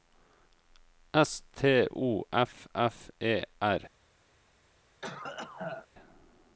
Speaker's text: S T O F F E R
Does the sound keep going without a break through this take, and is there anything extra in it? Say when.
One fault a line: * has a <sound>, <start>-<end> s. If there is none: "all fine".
* has a cough, 5.0-5.9 s